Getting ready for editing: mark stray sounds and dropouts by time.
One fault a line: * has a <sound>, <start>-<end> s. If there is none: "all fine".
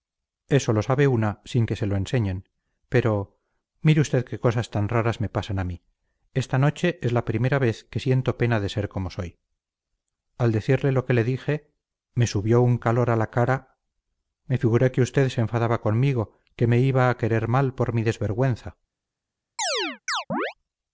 * has a chirp, 19.6-20.5 s